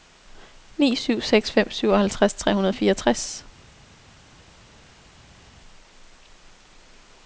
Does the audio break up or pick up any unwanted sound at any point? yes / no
no